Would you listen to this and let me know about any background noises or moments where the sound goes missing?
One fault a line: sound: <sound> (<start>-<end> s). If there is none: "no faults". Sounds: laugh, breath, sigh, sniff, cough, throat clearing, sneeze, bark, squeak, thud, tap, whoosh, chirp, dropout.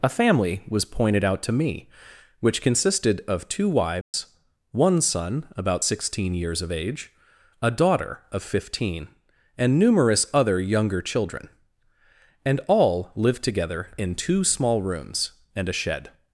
sound: dropout (4.0-4.1 s)